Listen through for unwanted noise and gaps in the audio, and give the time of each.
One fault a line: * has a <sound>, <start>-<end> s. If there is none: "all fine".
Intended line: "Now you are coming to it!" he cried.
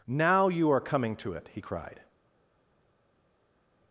all fine